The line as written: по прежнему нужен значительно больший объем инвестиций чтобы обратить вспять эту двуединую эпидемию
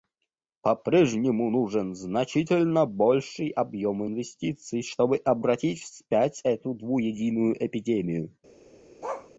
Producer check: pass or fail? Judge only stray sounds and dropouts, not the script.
fail